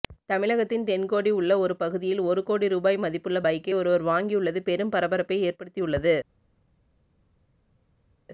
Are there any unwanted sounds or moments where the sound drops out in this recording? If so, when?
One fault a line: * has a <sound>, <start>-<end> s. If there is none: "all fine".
all fine